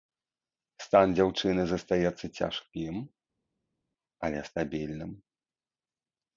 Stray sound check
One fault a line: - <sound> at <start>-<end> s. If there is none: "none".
none